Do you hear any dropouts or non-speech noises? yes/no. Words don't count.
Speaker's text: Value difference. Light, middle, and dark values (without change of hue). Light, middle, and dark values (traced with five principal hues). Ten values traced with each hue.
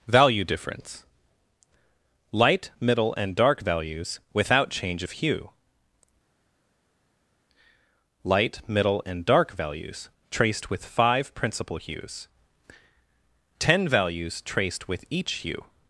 no